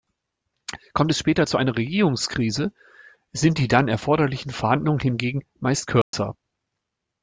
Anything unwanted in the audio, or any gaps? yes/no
yes